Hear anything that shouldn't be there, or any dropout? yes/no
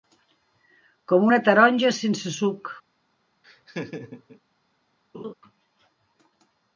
yes